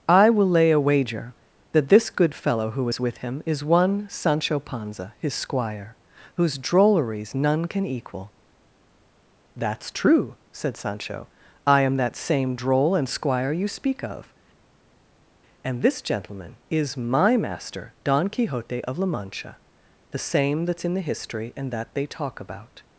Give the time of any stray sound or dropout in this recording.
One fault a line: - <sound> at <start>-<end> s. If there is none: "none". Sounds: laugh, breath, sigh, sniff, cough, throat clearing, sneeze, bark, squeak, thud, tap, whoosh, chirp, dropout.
none